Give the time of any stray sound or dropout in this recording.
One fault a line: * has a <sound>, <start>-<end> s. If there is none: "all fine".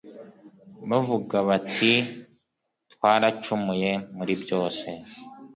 all fine